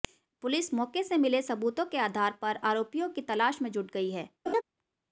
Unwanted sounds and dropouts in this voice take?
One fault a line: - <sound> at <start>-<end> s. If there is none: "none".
- laugh at 4.5-4.6 s